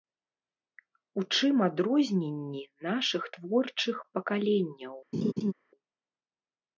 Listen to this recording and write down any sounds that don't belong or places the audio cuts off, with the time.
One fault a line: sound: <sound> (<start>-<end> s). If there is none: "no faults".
sound: laugh (5.1-5.5 s)